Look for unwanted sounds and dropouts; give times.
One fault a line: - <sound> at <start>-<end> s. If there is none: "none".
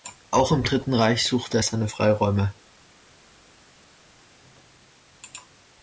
none